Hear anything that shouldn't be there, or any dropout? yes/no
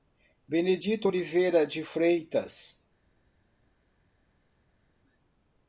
no